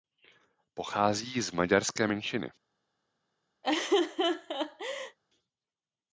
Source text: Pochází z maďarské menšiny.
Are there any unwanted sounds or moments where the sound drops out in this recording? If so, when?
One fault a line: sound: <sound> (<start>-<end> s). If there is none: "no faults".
sound: laugh (3.6-5.2 s)